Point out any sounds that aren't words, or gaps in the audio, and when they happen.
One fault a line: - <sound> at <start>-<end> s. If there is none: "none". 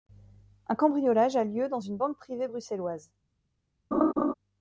- laugh at 3.9-4.3 s